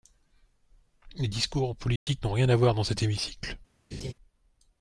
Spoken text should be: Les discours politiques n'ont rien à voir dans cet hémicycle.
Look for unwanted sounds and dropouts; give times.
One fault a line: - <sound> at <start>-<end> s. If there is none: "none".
- dropout at 2.0-2.1 s
- laugh at 3.9-4.1 s